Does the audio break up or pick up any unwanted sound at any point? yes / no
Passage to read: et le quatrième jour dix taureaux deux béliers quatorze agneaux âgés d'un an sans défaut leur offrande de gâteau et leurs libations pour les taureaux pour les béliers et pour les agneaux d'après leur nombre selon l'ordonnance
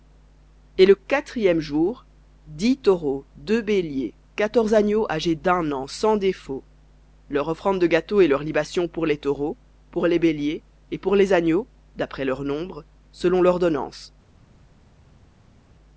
no